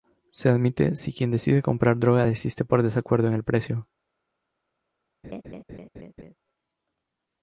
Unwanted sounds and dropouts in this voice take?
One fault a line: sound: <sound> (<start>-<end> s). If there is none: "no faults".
sound: laugh (5.2-6.3 s)